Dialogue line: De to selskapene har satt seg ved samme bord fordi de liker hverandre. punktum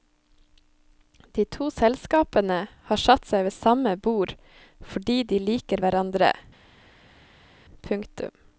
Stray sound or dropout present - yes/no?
no